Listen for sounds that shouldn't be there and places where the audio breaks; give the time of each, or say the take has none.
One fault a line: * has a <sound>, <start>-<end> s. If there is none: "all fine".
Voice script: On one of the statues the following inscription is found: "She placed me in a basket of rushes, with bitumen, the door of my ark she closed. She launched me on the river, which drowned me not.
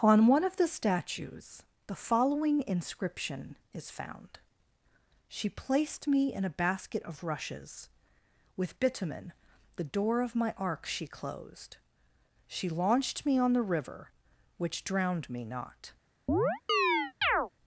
* has a chirp, 16.3-17.5 s